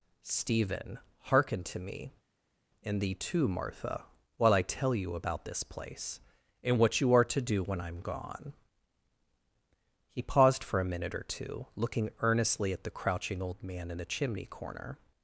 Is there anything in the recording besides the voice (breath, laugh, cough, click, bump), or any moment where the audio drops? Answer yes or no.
no